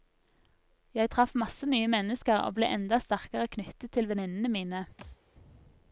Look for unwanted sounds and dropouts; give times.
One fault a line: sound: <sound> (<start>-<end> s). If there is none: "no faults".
sound: thud (5.0-5.2 s)